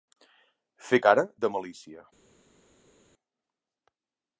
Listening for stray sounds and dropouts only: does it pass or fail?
pass